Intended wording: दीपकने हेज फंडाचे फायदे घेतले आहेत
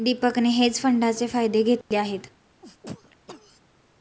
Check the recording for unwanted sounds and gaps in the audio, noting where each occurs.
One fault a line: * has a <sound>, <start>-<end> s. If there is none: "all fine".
* has a dropout, 1.8-1.9 s
* has a sneeze, 2.6-3.6 s